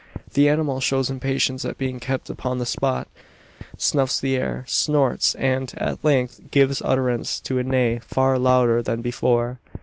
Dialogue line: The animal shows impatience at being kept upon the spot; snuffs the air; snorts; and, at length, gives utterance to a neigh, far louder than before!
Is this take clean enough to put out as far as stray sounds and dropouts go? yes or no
yes